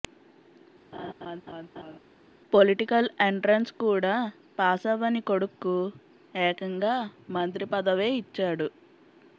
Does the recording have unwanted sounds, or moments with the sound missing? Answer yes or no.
yes